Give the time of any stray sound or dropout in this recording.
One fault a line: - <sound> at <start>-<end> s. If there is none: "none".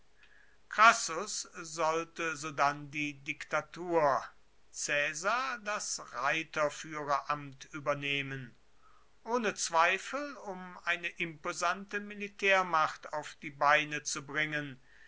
none